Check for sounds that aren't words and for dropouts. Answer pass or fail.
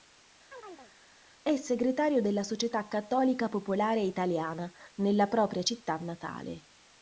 fail